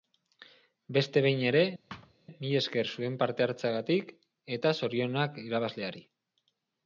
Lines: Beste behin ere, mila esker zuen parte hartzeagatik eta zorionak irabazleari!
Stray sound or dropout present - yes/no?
yes